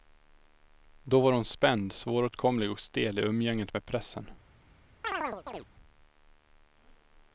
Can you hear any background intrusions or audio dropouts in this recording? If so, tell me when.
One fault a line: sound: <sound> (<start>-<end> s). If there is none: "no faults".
sound: chirp (5.0-5.7 s)